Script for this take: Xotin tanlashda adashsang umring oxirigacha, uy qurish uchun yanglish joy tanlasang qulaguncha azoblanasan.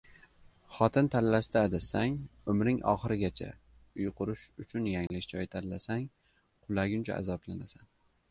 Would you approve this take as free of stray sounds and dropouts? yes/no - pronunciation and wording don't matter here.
no